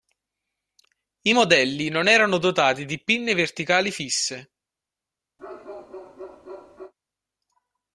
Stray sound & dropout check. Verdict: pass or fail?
fail